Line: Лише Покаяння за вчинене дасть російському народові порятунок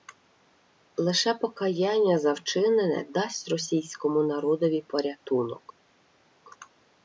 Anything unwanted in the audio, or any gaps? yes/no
no